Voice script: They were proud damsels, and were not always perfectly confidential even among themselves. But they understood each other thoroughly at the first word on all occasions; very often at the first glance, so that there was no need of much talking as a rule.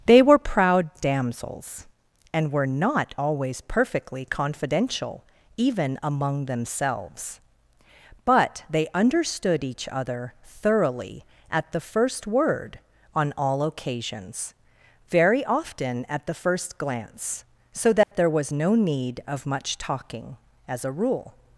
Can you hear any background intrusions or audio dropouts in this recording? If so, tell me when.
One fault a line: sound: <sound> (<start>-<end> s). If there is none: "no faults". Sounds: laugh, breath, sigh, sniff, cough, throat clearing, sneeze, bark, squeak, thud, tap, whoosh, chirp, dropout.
sound: dropout (18.0-18.1 s)